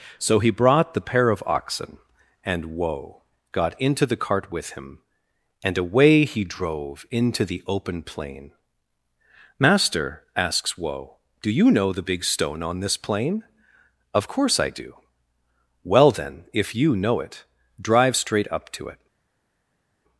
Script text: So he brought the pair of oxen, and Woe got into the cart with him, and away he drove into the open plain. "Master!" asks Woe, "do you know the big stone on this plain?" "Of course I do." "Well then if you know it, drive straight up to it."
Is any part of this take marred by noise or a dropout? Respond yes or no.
no